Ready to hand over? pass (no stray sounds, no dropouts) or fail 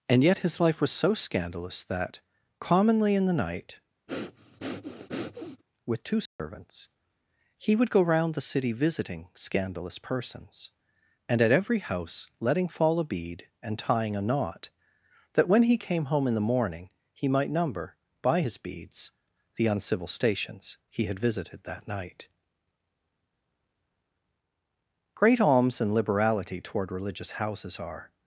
fail